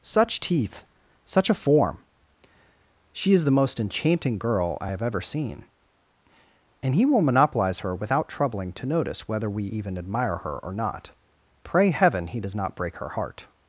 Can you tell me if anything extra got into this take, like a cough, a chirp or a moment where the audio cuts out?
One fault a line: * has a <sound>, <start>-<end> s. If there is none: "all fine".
all fine